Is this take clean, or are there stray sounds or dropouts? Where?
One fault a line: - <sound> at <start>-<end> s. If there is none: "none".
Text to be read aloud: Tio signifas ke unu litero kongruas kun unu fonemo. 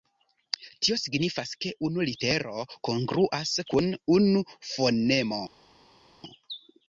none